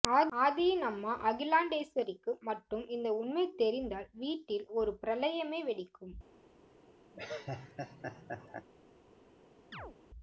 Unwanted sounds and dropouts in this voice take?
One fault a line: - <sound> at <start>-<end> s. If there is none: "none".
- laugh at 7.1-8.7 s
- chirp at 9.7-10.0 s